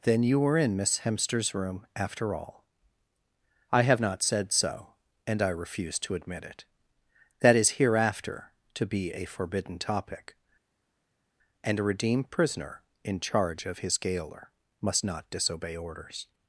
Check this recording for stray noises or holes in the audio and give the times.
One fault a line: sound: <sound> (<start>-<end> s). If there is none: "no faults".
no faults